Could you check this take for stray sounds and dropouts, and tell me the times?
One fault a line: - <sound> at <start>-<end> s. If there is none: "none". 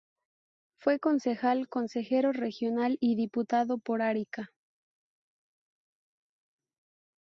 none